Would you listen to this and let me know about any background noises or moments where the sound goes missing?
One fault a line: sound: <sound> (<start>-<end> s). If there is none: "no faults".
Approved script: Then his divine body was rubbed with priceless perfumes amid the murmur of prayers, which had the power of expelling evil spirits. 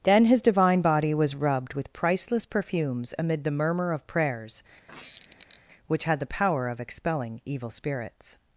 sound: squeak (4.9-5.6 s)